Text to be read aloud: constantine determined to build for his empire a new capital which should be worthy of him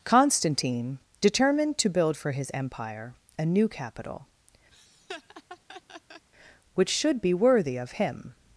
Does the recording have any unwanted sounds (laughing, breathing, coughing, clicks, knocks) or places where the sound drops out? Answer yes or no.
yes